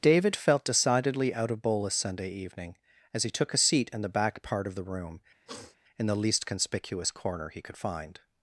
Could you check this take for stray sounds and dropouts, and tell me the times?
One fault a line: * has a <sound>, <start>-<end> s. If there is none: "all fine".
* has a sniff, 5.5-5.8 s